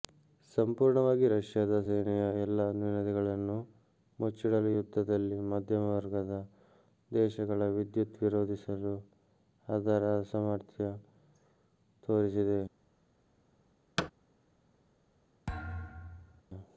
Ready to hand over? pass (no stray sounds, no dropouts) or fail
fail